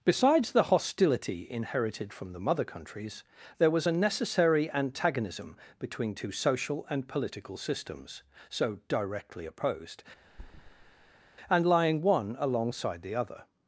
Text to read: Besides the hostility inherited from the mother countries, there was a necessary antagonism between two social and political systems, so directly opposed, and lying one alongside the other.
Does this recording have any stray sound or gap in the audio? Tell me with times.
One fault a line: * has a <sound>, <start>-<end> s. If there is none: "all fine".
* has a thud, 10.3-11.2 s